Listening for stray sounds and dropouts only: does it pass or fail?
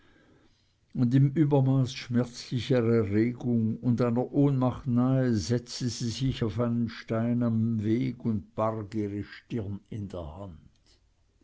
pass